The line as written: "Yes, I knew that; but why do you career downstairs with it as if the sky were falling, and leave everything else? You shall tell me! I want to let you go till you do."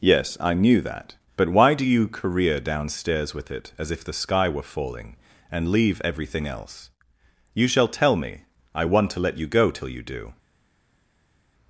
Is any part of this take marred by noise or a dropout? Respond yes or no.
no